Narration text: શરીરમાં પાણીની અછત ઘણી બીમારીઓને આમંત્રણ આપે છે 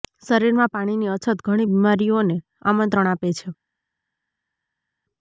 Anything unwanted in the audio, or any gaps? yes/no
no